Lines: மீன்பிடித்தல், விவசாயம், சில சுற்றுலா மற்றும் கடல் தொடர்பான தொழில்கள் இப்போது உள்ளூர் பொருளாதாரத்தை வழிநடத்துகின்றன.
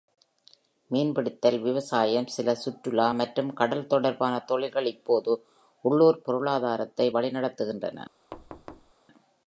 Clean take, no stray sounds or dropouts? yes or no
no